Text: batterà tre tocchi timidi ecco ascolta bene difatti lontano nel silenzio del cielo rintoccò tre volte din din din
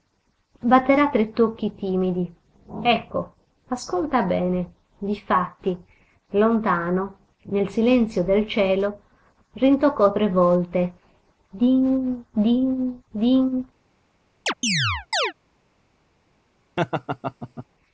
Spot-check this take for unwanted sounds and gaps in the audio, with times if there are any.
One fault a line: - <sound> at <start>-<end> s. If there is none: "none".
- chirp at 14.5-15.3 s
- laugh at 16.8-17.7 s